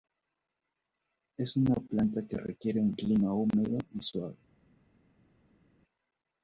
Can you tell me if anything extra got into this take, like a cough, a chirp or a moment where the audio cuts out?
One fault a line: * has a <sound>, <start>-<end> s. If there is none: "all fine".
all fine